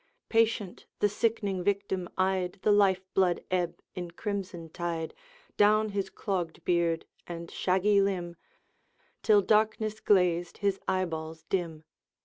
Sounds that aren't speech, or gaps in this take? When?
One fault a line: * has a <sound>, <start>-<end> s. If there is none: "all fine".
all fine